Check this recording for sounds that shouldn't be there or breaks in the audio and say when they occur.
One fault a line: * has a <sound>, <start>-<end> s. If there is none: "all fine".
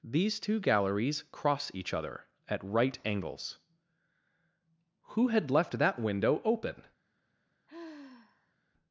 * has a sigh, 7.7-8.5 s